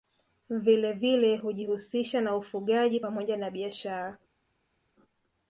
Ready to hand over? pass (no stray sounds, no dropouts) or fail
pass